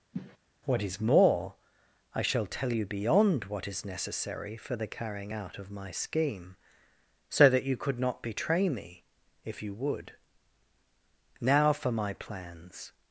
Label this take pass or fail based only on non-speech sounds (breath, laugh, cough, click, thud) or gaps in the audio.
fail